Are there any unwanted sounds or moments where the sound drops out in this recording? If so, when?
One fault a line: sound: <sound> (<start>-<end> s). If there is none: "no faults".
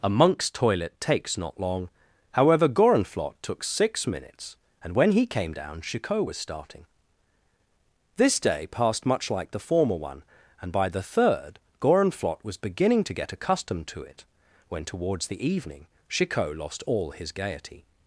no faults